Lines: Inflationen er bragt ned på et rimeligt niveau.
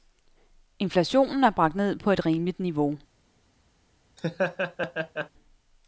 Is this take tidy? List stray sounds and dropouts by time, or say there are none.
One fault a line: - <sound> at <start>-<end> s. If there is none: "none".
- laugh at 4.2-5.3 s